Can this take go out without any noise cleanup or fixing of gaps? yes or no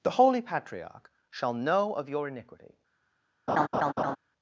no